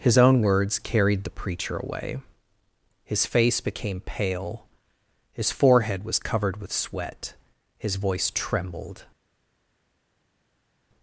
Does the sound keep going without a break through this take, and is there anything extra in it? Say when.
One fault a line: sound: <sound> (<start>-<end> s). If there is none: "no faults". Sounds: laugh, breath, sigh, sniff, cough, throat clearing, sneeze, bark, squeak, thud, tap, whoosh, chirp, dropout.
no faults